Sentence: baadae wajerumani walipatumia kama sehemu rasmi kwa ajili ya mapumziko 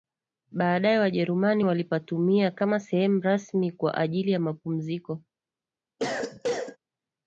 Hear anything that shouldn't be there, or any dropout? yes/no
yes